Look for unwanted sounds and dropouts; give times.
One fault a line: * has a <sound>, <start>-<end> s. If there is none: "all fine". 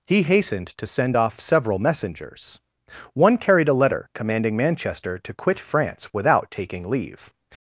all fine